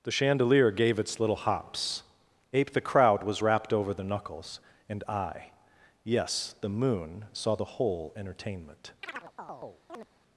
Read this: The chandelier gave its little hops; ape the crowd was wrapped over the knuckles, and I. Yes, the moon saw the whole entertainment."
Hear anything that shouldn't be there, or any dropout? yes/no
yes